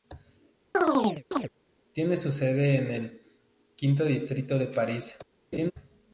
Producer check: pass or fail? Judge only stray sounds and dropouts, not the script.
fail